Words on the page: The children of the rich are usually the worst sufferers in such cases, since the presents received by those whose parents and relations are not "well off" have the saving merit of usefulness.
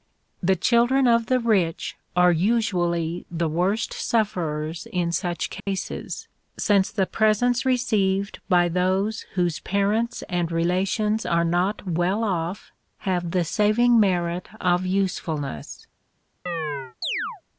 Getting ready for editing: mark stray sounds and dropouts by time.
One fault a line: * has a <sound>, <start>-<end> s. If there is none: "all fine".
* has a dropout, 5.6-5.7 s
* has a chirp, 16.5-17.4 s